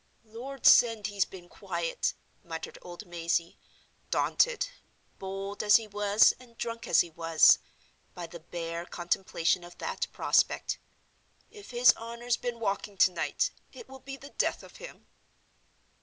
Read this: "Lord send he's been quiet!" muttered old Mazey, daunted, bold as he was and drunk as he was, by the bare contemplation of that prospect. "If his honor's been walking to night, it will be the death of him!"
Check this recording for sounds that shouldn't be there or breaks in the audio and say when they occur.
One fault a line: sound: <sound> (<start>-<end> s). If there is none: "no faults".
no faults